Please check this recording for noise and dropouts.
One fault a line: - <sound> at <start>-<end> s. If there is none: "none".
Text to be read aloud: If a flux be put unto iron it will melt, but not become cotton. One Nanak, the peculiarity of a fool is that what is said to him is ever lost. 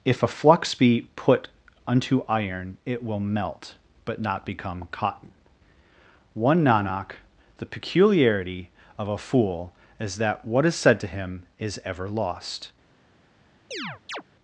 - chirp at 13.7-14.2 s